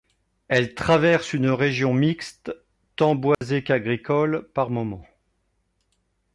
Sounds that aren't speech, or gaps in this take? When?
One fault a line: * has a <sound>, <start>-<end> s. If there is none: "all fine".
* has a dropout, 3.3-3.4 s